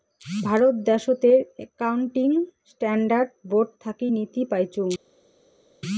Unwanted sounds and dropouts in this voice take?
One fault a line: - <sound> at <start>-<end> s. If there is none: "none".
none